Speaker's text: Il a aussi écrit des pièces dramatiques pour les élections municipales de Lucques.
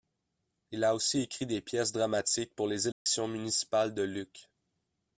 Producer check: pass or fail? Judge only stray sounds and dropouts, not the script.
fail